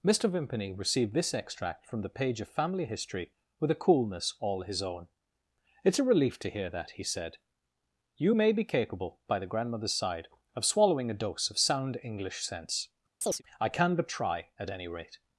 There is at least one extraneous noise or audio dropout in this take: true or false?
true